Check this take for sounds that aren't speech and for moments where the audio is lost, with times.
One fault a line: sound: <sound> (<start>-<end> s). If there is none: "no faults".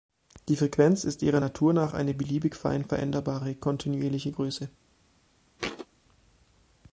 sound: thud (5.6-5.9 s)